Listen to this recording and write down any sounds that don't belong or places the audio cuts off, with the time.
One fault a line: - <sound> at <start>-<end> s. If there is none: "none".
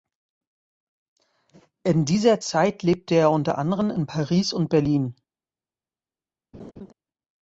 - laugh at 6.5-6.9 s